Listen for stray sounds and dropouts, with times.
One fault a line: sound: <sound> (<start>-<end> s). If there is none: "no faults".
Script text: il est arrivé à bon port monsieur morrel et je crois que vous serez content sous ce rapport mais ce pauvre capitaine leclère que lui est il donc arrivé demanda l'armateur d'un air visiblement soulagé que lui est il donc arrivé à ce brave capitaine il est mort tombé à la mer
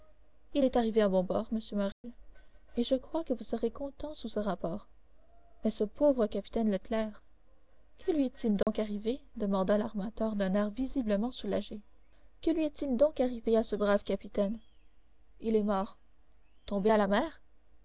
sound: dropout (1.9-2.0 s)
sound: dropout (8.6-8.7 s)